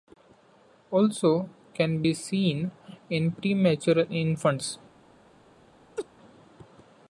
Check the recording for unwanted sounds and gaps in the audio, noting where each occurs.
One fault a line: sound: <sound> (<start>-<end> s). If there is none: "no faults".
sound: laugh (6.0-6.1 s)